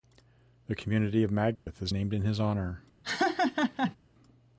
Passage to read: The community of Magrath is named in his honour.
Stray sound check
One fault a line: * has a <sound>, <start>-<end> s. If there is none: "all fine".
* has a dropout, 1.6-1.7 s
* has a laugh, 3.0-4.0 s